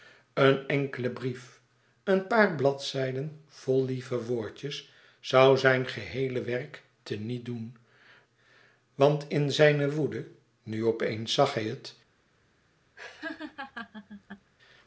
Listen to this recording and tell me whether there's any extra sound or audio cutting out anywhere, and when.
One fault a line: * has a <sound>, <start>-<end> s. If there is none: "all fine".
* has a laugh, 13.0-14.5 s